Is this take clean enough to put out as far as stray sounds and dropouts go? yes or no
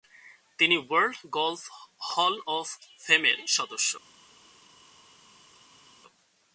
yes